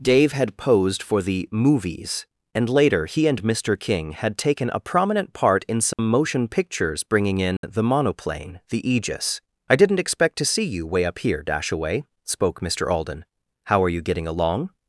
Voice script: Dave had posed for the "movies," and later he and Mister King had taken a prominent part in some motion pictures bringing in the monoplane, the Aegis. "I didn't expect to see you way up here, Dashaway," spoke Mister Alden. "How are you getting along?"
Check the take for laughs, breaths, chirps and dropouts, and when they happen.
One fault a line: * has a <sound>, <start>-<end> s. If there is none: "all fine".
* has a dropout, 5.9-6.0 s
* has a dropout, 7.6-7.6 s